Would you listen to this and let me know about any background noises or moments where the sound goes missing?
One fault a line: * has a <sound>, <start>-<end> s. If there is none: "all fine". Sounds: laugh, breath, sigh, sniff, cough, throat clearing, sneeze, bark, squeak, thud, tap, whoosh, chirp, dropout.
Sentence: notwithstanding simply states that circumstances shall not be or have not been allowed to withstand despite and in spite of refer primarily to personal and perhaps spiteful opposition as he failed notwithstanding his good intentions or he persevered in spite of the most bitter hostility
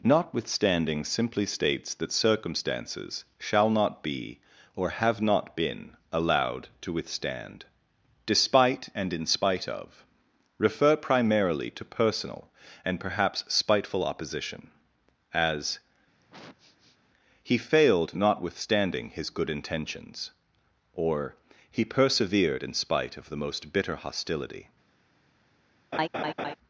* has a sniff, 16.2-17.0 s
* has a laugh, 25.9-26.6 s